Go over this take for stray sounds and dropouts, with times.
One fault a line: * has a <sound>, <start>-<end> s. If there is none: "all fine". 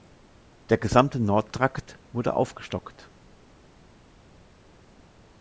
all fine